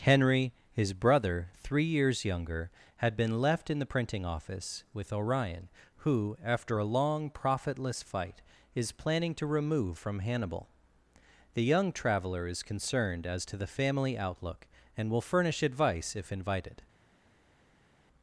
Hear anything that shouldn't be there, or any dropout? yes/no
no